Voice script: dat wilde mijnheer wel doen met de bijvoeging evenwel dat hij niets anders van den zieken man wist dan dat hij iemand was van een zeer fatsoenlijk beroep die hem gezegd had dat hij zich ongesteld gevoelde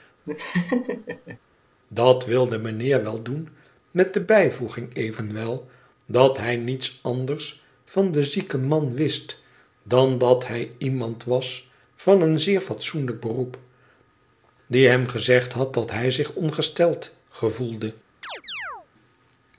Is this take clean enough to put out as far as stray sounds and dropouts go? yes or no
no